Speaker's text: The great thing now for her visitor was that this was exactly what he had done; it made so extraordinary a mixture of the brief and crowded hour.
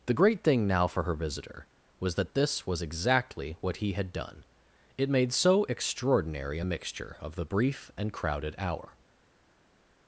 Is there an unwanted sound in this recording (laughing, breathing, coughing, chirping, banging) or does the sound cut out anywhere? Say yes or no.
no